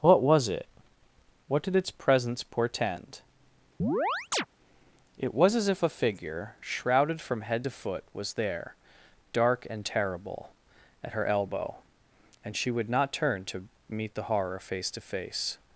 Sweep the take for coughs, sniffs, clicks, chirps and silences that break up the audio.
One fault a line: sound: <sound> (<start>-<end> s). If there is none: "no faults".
sound: chirp (3.8-4.5 s)